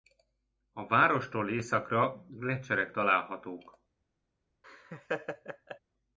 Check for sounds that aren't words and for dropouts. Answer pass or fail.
fail